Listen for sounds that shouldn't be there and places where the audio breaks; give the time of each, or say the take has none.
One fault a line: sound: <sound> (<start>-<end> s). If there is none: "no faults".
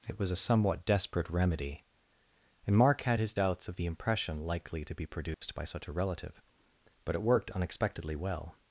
sound: dropout (5.3-5.4 s)